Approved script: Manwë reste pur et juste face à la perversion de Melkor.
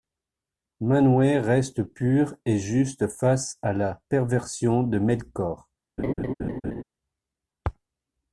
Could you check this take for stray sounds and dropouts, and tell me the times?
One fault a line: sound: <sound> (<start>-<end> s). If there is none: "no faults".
sound: laugh (6.0-6.8 s)